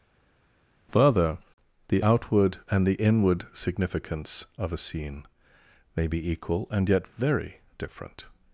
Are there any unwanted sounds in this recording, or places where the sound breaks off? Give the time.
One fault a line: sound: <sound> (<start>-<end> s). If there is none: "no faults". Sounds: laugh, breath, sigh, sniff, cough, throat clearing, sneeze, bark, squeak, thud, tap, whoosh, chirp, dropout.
no faults